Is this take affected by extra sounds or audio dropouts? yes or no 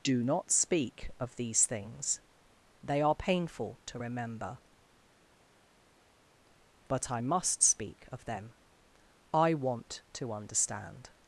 no